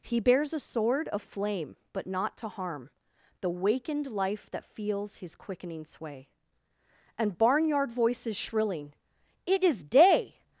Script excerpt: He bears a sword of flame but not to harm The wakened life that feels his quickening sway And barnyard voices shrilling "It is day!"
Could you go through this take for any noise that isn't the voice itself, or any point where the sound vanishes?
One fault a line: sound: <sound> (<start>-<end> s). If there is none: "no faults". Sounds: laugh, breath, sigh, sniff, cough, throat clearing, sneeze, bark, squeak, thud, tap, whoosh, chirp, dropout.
no faults